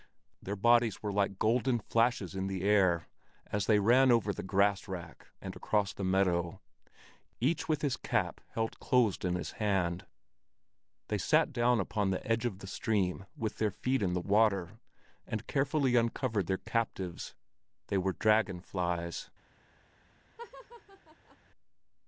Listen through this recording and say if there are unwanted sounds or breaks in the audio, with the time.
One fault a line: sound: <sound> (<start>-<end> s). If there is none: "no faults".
sound: laugh (20.4-21.4 s)